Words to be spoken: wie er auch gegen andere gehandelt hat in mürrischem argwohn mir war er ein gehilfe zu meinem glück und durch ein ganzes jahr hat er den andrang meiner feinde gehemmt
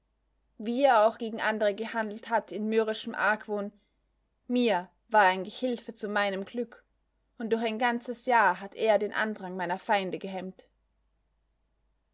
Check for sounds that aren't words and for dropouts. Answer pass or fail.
pass